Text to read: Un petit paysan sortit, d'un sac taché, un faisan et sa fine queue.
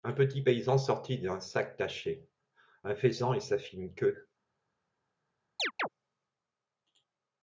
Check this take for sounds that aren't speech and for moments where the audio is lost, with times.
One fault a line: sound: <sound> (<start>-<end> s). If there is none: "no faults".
sound: chirp (5.6-5.9 s)